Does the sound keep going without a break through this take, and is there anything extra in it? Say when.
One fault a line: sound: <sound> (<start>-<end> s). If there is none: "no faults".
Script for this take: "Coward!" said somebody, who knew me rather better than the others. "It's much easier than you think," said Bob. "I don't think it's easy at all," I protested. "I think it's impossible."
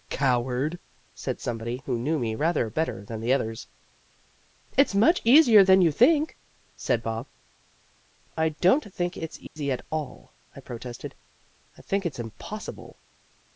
sound: dropout (9.5-9.6 s)